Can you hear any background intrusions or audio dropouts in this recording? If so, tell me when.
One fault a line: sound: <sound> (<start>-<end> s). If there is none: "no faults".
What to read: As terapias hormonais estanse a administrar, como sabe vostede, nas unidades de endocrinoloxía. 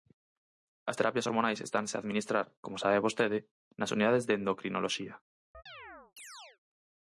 sound: chirp (5.5-6.6 s)